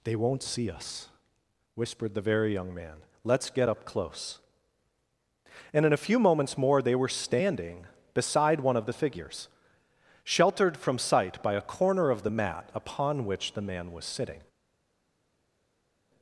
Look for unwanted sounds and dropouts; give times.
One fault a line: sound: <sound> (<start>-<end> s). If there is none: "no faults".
no faults